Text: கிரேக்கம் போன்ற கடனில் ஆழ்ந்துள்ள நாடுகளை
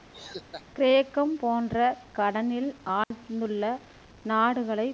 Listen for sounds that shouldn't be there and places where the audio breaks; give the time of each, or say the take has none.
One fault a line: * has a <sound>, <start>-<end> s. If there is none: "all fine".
* has a laugh, 0.1-0.6 s
* has a dropout, 3.0-3.1 s